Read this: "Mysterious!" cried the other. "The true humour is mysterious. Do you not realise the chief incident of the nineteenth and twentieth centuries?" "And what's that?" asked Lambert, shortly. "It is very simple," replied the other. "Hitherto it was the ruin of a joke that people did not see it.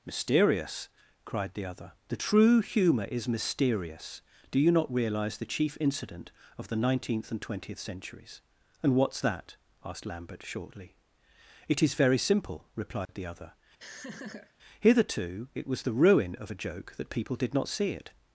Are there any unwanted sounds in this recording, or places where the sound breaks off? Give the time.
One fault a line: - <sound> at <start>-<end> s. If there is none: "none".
- dropout at 13.0-13.1 s
- laugh at 13.8-14.5 s